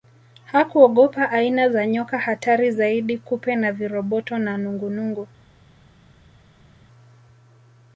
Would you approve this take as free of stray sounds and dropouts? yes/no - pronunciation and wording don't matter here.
yes